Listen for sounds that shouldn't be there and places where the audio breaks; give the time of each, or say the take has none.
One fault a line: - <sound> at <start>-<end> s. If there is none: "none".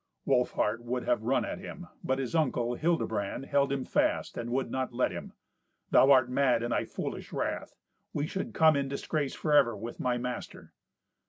none